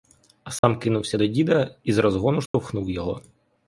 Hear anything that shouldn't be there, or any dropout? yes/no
yes